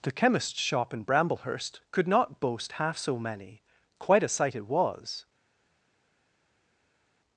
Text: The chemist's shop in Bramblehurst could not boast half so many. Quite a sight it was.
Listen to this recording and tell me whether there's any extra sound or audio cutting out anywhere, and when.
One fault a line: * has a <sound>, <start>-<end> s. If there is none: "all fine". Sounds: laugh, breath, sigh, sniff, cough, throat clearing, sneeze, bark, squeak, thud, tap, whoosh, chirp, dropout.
all fine